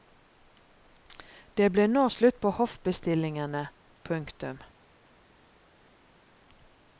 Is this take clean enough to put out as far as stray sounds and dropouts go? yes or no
yes